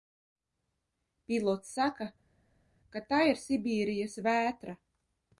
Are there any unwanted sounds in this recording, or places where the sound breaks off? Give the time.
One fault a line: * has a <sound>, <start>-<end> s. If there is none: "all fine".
all fine